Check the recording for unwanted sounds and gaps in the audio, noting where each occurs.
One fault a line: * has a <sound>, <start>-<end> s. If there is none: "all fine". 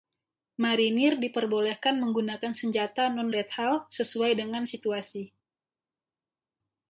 all fine